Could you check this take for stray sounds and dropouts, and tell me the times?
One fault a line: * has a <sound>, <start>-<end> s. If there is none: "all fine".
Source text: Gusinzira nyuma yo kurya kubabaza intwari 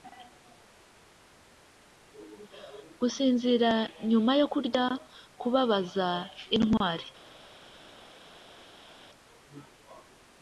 all fine